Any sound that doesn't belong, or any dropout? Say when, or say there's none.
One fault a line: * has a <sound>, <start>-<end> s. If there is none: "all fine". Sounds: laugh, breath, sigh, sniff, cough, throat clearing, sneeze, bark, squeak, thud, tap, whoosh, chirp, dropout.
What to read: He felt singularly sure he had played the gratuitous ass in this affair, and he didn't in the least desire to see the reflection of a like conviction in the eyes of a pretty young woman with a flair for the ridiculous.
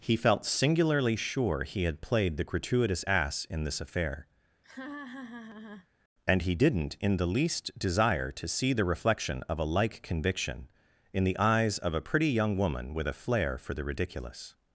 * has a laugh, 4.6-5.9 s